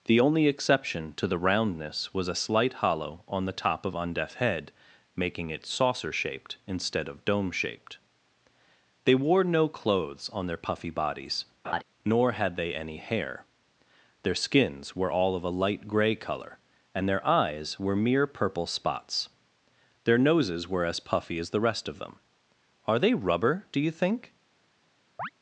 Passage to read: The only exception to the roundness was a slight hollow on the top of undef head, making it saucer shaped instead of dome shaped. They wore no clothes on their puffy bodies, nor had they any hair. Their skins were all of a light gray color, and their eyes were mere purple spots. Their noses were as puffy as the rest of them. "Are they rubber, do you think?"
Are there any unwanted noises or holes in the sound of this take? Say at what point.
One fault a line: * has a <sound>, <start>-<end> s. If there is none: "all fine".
* has a laugh, 11.6-11.8 s
* has a chirp, 25.2-25.3 s